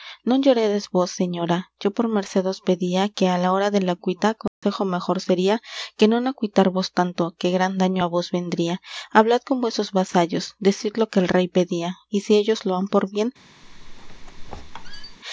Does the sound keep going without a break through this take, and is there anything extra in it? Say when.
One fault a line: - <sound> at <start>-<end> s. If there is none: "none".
- dropout at 4.5-4.6 s
- squeak at 13.6-15.2 s